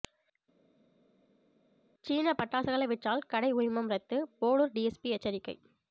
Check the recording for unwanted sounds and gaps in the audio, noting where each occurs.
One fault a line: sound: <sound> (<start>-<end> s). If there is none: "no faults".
no faults